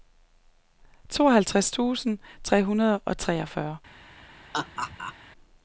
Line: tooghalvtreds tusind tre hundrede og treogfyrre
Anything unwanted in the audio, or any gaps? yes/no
yes